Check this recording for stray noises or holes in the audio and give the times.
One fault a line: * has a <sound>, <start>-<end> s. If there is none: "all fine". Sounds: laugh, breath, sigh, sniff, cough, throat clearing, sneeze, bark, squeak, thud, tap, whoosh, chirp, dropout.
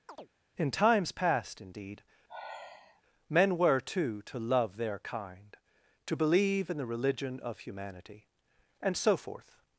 * has a chirp, 0.1-0.3 s
* has a sigh, 2.3-3.0 s